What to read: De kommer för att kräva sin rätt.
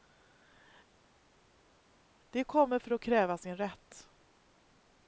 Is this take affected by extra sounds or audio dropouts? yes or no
no